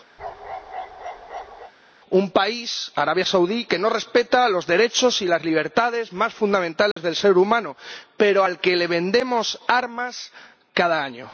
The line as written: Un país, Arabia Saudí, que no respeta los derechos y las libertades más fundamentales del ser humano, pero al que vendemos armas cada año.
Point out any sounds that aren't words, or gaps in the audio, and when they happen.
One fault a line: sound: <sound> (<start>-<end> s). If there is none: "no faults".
sound: bark (0.2-1.7 s)
sound: dropout (6.9-7.0 s)